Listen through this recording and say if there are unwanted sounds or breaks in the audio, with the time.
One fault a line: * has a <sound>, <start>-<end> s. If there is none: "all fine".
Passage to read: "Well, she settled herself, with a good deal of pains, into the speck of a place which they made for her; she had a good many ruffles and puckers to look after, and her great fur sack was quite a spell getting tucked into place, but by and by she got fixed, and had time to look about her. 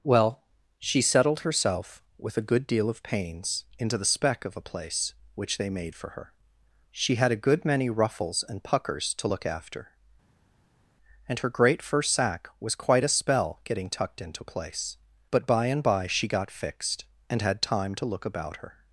all fine